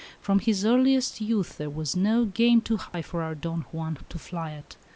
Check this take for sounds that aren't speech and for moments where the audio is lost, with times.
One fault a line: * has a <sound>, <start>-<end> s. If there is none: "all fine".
* has a dropout, 2.9-2.9 s